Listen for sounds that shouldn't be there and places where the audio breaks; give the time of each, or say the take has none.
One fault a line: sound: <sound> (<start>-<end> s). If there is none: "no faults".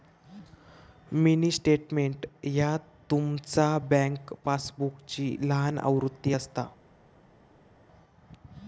no faults